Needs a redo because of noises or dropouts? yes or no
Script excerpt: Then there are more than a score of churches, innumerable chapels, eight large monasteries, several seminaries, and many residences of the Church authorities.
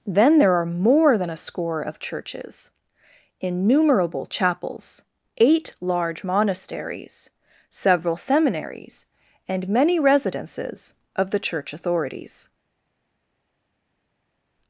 no